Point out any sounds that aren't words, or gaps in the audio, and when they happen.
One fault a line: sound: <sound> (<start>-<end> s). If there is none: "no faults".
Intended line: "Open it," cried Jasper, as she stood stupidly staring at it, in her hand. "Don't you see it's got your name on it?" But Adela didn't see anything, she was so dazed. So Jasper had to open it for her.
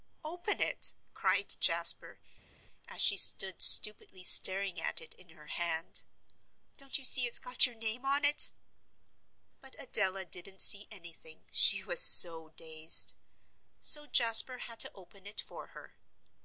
no faults